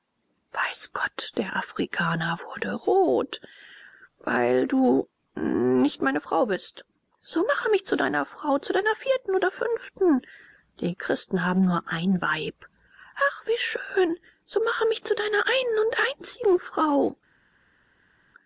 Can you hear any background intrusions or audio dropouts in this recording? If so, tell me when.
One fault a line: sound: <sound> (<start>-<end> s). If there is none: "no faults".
no faults